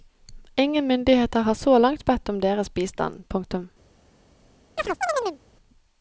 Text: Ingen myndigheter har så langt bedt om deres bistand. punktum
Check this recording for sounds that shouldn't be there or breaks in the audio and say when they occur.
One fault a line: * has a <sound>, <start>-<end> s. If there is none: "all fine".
* has a chirp, 4.8-5.4 s